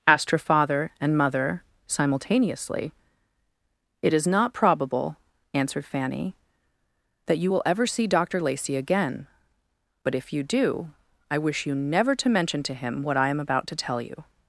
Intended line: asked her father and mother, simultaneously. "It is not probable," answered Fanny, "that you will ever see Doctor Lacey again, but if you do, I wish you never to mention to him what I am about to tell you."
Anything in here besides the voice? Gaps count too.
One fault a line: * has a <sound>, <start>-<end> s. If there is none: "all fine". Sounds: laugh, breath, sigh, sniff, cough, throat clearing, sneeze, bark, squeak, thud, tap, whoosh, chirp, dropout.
all fine